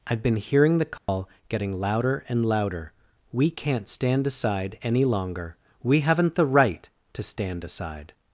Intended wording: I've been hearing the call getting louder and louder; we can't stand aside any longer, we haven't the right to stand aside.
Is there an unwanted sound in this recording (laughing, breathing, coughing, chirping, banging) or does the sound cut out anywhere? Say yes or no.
yes